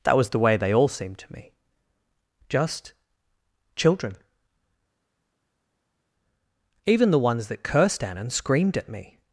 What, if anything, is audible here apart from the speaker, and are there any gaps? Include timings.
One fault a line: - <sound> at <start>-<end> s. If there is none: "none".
none